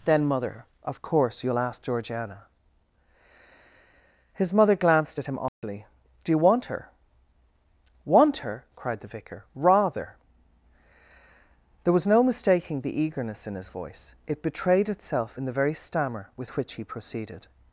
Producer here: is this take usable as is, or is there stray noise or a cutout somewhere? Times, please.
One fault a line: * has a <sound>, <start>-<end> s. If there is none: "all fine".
* has a dropout, 5.5-5.6 s